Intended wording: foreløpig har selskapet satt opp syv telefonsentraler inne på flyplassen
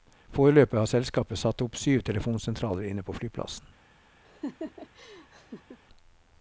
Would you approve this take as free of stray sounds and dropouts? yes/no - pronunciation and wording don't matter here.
no